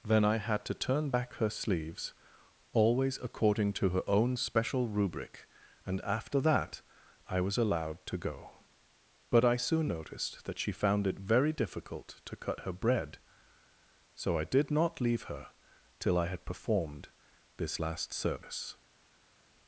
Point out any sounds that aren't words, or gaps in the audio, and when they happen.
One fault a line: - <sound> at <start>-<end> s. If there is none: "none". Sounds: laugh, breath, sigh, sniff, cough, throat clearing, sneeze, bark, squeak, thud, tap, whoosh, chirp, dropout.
none